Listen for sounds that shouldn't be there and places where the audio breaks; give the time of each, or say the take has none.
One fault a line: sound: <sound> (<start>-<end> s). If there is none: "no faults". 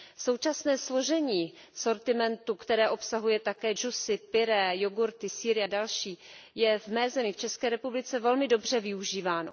no faults